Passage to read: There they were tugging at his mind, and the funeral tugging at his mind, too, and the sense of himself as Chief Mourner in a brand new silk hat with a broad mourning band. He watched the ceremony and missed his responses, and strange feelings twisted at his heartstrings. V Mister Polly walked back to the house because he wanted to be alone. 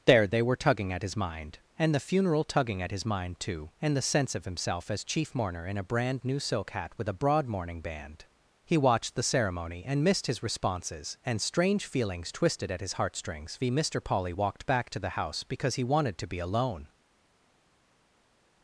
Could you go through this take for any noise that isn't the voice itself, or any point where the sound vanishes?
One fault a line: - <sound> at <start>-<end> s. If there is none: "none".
none